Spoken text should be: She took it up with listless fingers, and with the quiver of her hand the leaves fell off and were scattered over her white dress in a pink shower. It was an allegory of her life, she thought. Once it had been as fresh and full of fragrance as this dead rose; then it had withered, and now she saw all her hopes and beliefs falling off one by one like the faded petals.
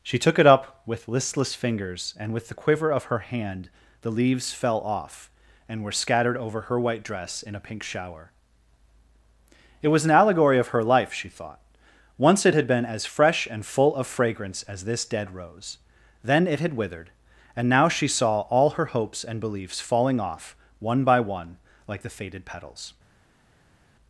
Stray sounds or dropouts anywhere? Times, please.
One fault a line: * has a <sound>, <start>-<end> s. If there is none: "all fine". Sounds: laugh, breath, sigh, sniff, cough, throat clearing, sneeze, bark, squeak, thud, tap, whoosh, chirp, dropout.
all fine